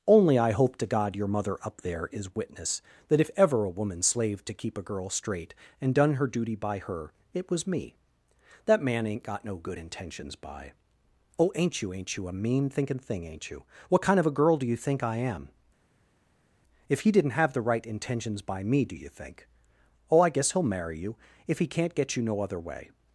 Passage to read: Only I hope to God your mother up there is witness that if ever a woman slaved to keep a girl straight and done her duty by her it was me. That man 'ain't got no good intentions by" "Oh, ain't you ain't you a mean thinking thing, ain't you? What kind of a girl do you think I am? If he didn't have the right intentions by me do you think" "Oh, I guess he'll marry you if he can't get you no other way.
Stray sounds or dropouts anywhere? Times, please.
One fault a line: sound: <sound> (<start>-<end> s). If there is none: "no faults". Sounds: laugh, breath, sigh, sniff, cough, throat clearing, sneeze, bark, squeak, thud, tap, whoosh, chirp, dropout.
no faults